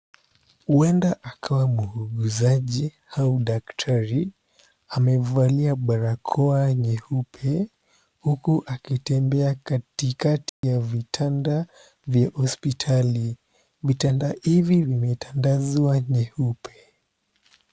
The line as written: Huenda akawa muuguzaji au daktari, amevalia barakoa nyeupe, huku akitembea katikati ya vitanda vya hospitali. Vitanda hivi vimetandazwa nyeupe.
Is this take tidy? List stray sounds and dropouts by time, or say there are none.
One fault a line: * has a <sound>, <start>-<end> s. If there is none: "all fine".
* has a dropout, 10.5-10.6 s